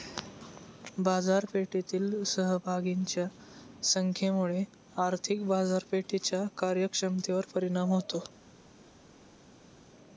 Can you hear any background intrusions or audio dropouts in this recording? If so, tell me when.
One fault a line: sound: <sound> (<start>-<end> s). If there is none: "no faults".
no faults